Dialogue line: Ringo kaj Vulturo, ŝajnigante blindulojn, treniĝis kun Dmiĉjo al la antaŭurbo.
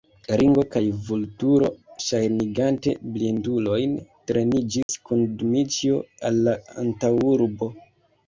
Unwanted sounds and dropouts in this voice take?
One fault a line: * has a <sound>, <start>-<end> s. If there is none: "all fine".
* has a dropout, 4.8-4.9 s